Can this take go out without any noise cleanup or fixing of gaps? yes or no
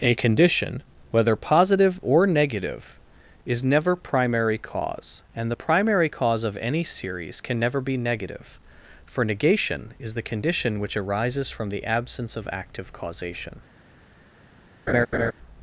no